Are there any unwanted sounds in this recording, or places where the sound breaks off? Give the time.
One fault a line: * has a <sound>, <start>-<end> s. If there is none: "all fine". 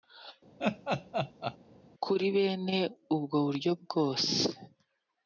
* has a laugh, 0.6-1.6 s